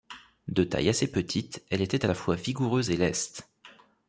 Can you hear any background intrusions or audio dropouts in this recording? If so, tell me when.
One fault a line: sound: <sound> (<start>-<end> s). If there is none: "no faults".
no faults